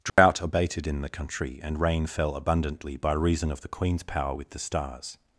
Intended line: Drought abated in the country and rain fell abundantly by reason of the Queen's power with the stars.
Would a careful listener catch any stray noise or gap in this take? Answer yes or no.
yes